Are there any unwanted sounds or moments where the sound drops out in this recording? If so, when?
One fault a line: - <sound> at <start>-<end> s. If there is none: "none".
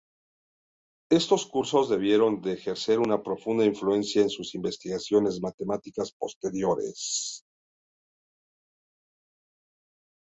none